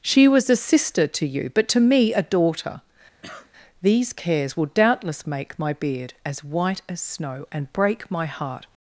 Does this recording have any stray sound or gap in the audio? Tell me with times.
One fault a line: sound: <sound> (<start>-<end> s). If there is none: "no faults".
sound: cough (3.2-3.5 s)